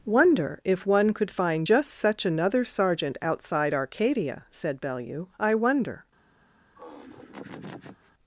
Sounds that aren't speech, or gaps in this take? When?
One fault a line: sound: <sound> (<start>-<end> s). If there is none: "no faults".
sound: laugh (6.7-8.1 s)